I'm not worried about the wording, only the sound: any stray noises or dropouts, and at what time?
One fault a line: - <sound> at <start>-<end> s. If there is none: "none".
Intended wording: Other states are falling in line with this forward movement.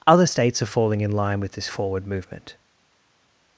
none